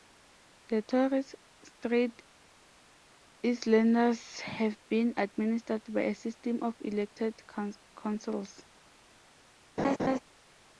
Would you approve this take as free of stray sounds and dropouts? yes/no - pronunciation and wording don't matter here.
no